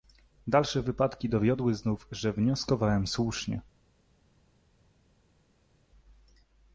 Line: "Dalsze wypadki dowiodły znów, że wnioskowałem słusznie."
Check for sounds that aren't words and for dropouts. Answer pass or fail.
pass